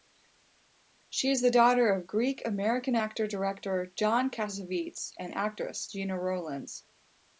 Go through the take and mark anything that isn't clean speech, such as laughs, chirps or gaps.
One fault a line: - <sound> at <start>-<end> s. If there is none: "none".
none